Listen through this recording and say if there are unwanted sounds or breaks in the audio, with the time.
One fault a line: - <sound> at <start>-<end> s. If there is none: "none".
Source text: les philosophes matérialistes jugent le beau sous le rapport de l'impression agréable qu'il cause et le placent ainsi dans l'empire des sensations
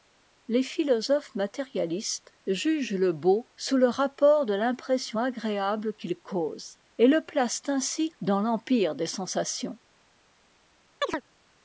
- chirp at 11.0-11.2 s